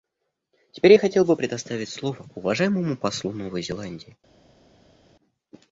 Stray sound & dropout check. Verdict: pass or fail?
pass